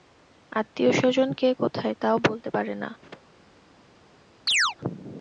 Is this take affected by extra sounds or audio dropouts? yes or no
yes